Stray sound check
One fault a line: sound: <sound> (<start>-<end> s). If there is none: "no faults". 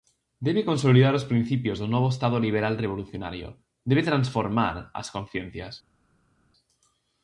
no faults